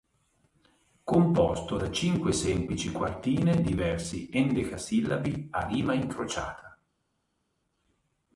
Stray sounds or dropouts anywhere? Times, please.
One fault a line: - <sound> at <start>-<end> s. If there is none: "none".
none